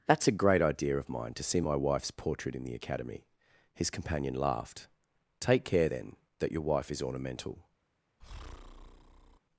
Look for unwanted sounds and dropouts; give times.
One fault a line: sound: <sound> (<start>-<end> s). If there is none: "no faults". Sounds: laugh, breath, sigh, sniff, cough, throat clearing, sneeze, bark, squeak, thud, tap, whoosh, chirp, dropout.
sound: breath (8.2-9.4 s)